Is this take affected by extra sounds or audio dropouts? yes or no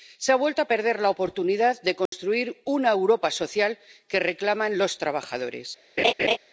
yes